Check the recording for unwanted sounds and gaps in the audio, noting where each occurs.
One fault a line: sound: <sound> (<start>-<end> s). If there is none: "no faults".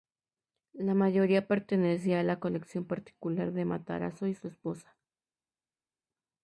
no faults